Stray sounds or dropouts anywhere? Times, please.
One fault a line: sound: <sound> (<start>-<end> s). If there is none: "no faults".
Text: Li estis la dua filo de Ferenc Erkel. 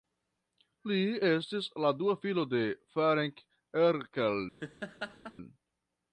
sound: laugh (4.6-5.3 s)